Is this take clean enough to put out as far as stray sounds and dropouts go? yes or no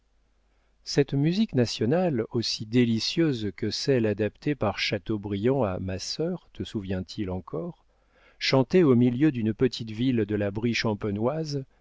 yes